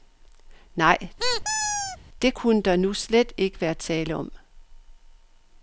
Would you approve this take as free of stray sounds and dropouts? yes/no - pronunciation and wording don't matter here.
no